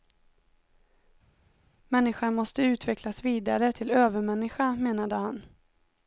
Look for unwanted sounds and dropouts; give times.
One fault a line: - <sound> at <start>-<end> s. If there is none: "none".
none